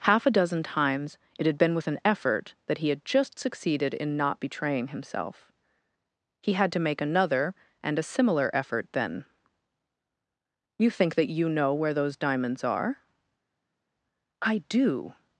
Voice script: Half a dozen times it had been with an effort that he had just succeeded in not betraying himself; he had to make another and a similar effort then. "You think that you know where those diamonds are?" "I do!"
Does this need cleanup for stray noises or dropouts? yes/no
no